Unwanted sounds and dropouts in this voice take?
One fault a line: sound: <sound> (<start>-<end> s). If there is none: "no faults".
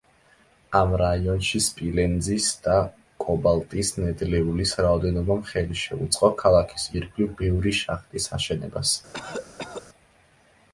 sound: cough (9.1-9.9 s)